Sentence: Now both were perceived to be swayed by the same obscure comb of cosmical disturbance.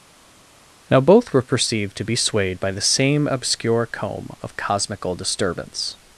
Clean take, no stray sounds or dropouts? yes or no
yes